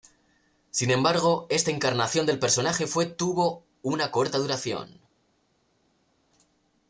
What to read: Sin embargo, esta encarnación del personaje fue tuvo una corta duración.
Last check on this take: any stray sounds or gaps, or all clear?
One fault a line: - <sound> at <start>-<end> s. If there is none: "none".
none